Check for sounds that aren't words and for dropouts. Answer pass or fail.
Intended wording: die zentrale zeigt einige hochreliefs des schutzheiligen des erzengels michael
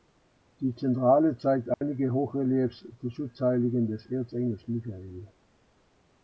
fail